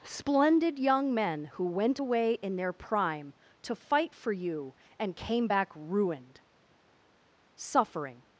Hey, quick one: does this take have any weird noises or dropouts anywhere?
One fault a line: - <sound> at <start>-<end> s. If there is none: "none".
none